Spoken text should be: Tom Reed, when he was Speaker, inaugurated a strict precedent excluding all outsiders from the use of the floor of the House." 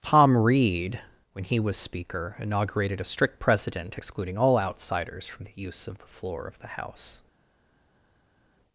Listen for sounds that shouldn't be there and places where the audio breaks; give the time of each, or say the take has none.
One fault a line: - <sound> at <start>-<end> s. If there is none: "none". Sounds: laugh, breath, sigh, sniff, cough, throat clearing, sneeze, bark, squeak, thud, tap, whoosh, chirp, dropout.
none